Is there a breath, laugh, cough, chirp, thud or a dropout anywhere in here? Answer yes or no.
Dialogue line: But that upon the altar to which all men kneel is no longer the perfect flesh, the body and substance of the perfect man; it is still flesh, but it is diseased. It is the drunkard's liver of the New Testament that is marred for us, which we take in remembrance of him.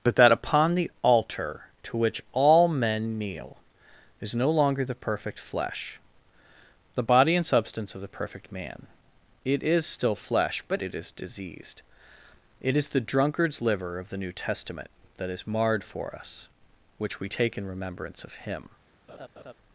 yes